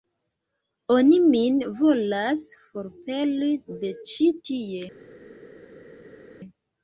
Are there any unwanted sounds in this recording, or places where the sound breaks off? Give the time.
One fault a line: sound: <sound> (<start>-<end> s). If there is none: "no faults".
no faults